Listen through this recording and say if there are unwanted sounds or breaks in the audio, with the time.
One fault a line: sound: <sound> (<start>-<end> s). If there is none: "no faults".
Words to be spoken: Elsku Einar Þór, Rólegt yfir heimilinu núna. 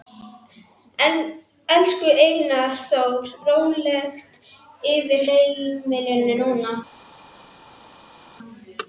no faults